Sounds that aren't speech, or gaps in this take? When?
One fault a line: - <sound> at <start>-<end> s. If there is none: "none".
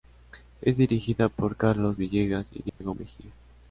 - dropout at 2.7-2.8 s